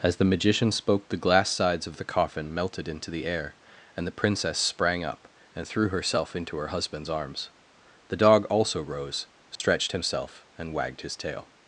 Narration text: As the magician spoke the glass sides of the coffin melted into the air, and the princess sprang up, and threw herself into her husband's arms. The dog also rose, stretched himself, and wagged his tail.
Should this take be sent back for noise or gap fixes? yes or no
yes